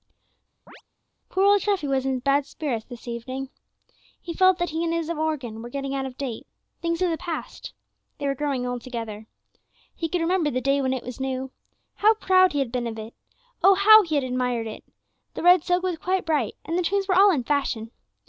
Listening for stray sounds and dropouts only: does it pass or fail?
fail